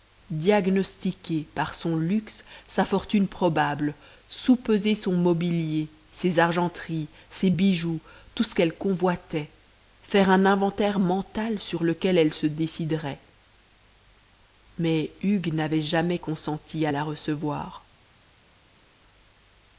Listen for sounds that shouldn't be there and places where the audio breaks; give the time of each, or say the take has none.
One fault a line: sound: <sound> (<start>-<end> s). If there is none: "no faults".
no faults